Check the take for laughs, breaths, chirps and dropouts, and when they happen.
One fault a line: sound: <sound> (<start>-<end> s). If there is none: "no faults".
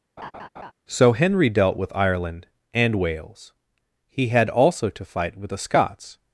sound: laugh (0.2-0.7 s)